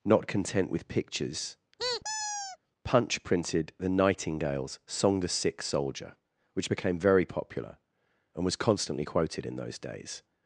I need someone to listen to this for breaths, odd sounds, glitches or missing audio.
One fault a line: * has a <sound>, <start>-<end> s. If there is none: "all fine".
* has a squeak, 1.8-2.6 s